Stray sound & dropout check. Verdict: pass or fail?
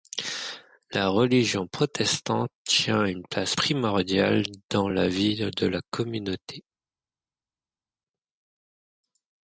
pass